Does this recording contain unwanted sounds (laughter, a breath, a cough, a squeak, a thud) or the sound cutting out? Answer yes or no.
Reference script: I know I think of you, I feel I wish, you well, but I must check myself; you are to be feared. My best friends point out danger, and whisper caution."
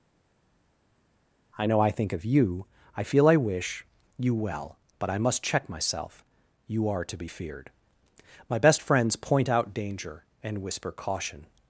no